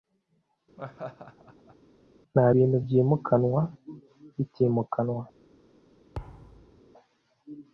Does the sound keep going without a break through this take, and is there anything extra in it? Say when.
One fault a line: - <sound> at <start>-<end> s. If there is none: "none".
- laugh at 0.8-1.8 s
- thud at 6.1-6.8 s